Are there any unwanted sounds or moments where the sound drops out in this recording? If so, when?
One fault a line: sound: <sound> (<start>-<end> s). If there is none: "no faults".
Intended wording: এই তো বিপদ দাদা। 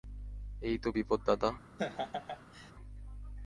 sound: laugh (1.8-2.7 s)